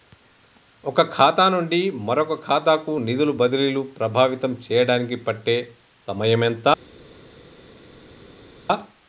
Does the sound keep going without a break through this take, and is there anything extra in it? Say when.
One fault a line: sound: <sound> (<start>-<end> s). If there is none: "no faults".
no faults